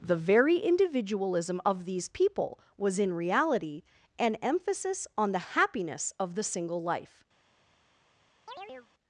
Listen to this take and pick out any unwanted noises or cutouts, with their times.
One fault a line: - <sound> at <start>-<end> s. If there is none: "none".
- chirp at 8.5-8.9 s